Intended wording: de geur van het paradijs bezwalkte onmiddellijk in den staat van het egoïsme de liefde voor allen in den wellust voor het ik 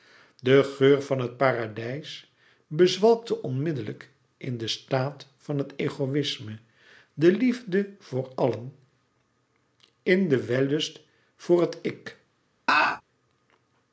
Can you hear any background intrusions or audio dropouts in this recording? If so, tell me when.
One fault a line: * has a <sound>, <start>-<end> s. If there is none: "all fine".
* has a laugh, 12.7-13.0 s